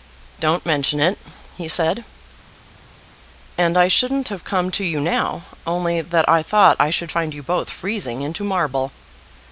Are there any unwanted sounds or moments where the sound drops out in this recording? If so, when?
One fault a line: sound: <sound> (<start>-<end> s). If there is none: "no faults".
no faults